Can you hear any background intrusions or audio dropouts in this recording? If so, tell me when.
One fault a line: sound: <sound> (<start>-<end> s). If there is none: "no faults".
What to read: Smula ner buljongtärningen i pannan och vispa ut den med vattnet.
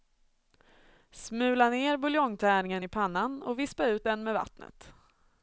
no faults